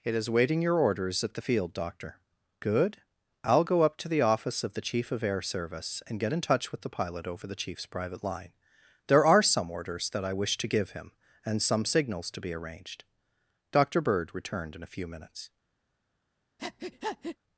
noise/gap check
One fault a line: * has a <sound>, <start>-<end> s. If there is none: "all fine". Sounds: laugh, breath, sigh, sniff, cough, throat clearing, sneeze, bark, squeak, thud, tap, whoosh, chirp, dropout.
* has a breath, 16.6-17.4 s